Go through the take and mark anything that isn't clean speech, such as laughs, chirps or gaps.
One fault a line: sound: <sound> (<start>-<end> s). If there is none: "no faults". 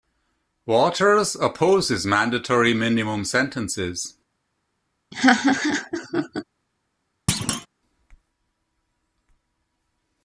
sound: laugh (5.1-6.4 s)
sound: thud (7.3-7.7 s)